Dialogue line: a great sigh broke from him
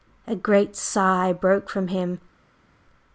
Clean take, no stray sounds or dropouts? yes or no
yes